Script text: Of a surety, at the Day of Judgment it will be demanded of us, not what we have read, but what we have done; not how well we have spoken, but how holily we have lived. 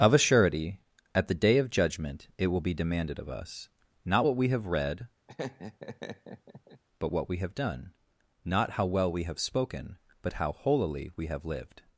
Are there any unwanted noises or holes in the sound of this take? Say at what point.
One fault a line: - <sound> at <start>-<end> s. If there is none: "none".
- laugh at 5.3-6.8 s